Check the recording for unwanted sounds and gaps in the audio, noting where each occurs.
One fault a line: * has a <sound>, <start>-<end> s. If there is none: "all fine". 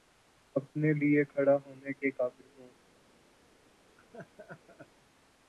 * has a laugh, 4.0-4.9 s